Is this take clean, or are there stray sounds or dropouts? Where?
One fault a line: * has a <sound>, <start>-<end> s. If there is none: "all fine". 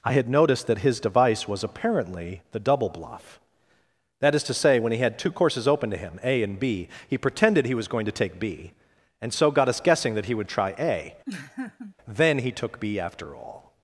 * has a laugh, 11.3-12.0 s